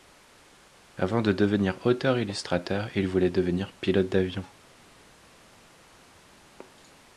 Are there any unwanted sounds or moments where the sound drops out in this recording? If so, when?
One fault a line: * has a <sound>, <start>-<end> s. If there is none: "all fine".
all fine